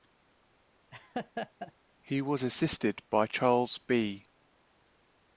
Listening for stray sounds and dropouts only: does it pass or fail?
fail